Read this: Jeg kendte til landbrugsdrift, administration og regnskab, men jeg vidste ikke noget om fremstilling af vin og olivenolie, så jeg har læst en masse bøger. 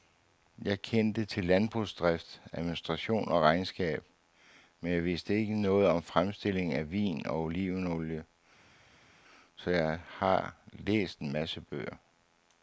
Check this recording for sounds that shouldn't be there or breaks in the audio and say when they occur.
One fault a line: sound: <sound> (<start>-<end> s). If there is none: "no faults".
no faults